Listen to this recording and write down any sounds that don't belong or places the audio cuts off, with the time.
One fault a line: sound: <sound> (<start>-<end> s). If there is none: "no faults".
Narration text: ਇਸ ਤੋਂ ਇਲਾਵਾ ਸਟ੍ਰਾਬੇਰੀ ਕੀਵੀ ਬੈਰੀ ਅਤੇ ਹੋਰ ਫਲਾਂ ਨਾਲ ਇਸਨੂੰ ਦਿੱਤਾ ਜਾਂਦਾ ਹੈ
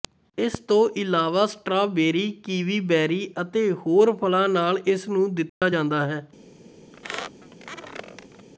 sound: dropout (5.5-5.6 s)
sound: squeak (6.9-8.5 s)